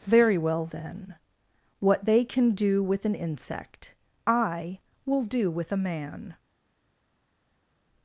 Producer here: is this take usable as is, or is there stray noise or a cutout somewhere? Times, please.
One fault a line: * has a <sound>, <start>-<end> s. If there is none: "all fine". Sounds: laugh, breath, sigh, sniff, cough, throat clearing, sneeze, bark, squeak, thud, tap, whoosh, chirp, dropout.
all fine